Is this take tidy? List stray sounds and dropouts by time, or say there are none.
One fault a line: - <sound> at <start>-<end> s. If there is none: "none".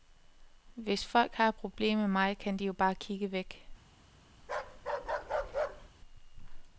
- bark at 4.4-5.9 s